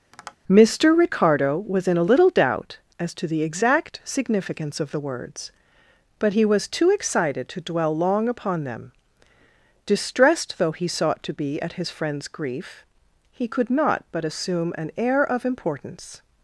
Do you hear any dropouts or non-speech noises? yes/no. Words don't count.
yes